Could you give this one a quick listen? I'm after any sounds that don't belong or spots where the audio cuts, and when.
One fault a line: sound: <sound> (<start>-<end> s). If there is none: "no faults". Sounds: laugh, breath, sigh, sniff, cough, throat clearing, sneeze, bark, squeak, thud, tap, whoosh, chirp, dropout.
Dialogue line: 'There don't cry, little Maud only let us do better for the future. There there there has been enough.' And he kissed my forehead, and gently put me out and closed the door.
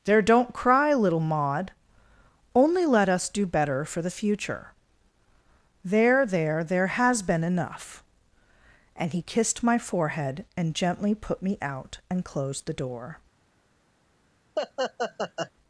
sound: laugh (14.6-15.5 s)